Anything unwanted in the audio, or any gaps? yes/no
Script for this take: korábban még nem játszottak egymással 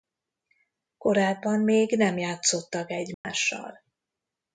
yes